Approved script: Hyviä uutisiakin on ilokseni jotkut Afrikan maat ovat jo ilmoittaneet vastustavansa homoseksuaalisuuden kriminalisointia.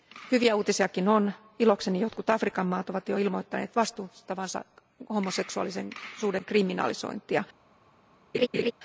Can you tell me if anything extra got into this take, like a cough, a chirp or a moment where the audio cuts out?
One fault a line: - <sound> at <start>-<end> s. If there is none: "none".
- laugh at 8.3-8.7 s